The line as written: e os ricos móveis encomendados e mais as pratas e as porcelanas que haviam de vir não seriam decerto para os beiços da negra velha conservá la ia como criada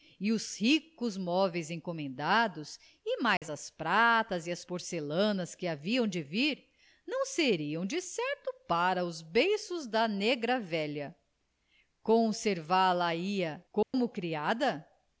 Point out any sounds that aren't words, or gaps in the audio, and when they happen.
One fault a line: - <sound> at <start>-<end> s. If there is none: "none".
- dropout at 3.4-3.4 s
- dropout at 13.8-13.9 s